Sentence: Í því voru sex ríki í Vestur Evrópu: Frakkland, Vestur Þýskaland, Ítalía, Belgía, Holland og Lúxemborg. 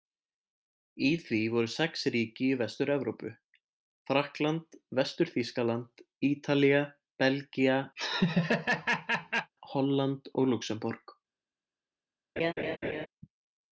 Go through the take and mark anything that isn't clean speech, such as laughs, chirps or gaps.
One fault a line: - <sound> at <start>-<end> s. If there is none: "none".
- laugh at 8.0-9.5 s
- laugh at 12.4-13.1 s